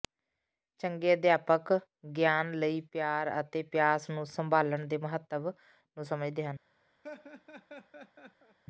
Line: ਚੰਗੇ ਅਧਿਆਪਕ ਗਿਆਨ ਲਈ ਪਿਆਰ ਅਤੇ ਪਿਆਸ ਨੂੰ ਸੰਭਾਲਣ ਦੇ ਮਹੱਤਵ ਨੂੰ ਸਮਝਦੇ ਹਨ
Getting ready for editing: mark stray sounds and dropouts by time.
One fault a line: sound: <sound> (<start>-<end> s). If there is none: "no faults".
sound: laugh (7.0-8.6 s)